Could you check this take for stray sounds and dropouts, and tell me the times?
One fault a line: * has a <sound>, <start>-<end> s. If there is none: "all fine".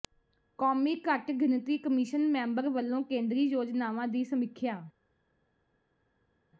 all fine